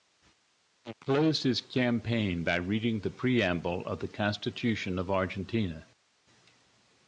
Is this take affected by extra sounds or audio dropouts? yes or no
no